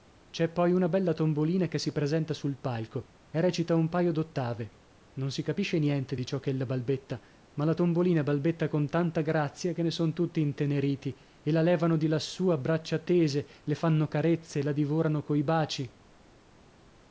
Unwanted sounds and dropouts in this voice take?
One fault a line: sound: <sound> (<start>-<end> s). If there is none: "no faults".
no faults